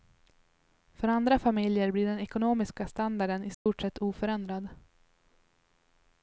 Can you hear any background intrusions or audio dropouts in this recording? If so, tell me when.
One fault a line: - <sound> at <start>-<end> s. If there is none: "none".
- dropout at 3.5-3.7 s